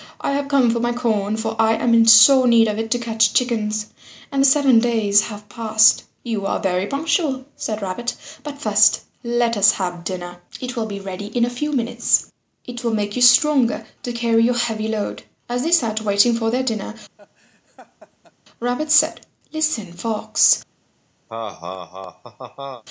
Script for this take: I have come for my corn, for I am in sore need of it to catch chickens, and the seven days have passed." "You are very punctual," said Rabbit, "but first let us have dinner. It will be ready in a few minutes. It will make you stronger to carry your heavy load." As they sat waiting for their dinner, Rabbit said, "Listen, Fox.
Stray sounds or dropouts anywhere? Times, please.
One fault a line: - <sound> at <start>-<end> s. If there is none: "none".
- laugh at 17.2-18.3 s
- laugh at 21.3-22.8 s